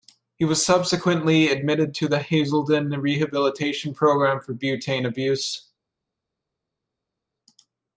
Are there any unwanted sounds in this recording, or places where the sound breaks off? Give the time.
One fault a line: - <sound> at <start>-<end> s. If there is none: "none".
none